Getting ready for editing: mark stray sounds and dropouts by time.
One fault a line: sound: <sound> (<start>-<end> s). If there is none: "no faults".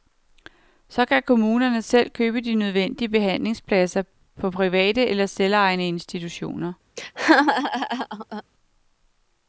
sound: laugh (7.0-8.4 s)